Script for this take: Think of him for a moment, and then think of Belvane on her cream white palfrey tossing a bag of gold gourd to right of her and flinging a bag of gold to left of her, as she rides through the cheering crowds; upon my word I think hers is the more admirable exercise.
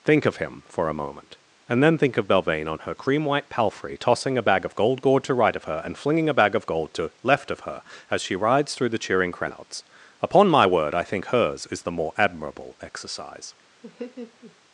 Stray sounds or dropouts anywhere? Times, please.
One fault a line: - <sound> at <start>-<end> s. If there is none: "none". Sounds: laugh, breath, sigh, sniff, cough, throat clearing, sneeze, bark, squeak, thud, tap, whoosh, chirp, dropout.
- laugh at 13.8-14.6 s